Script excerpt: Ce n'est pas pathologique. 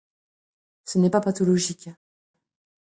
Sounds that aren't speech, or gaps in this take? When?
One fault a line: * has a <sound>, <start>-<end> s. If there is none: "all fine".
all fine